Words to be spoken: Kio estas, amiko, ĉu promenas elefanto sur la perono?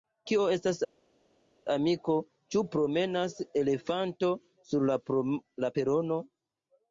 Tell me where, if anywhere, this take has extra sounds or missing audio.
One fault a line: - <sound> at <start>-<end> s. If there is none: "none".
none